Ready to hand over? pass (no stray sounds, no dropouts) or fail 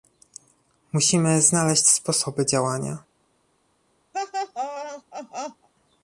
fail